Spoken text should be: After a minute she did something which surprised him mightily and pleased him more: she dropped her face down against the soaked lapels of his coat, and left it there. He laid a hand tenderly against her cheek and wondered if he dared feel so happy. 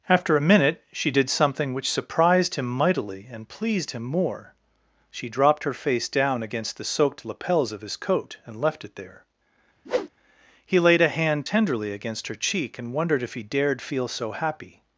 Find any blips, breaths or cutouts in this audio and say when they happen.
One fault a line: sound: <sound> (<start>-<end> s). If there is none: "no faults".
sound: whoosh (9.8-10.1 s)